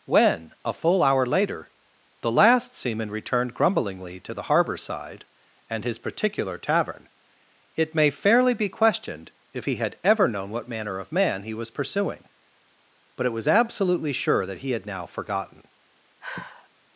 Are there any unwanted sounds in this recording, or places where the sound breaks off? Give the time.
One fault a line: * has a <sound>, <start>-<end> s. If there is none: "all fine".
* has a sigh, 16.2-16.7 s